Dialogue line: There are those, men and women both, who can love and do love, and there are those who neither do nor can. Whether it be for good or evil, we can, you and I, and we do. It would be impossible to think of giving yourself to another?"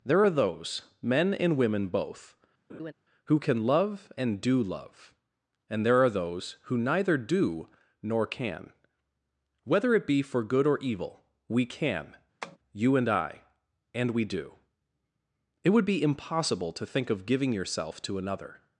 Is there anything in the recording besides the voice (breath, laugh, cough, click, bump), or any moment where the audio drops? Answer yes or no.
yes